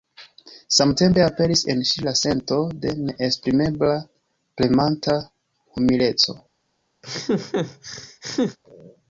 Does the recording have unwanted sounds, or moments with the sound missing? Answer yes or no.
yes